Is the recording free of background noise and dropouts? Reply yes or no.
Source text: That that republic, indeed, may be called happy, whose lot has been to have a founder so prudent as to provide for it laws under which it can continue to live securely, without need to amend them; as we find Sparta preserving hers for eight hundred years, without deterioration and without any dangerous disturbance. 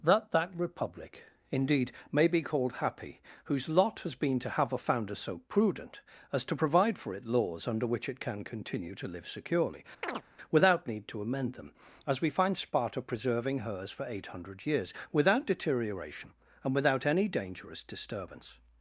no